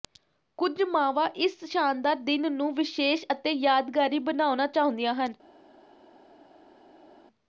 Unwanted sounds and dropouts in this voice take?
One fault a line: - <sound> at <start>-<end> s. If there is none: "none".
none